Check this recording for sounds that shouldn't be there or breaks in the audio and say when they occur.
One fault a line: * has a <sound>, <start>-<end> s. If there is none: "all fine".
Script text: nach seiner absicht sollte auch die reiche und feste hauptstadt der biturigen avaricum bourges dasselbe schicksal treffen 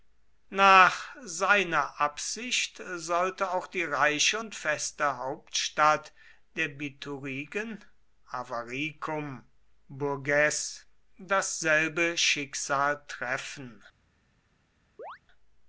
* has a chirp, 15.0-15.2 s